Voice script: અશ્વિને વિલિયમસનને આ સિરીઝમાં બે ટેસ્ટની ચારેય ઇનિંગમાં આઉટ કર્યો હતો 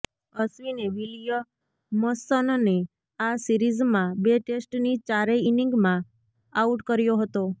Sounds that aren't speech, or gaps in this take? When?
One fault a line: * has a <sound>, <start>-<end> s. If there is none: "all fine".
all fine